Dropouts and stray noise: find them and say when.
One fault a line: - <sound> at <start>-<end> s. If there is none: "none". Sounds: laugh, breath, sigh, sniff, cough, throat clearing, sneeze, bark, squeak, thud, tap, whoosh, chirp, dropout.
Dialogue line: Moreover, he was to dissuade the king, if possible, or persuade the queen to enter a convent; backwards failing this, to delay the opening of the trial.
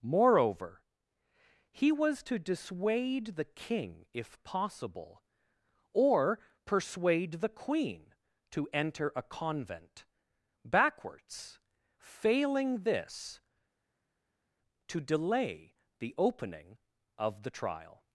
none